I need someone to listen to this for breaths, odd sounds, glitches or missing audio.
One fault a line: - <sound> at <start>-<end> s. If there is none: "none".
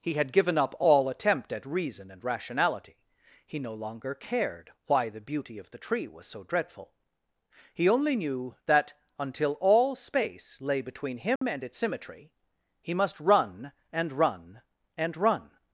- dropout at 11.4-11.4 s